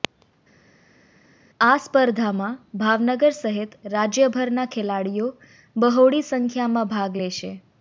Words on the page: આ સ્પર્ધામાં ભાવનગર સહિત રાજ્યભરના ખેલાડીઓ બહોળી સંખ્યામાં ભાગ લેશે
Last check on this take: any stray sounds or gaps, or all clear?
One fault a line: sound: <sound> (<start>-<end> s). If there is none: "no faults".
no faults